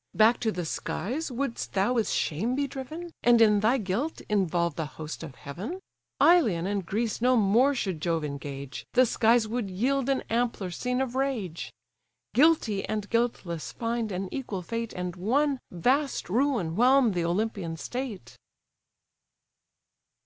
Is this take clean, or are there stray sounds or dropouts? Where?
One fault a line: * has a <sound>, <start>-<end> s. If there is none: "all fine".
all fine